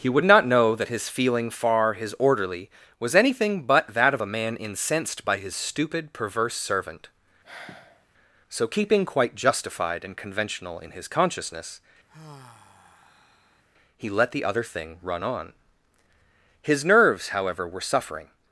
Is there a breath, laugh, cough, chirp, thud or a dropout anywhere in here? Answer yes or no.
yes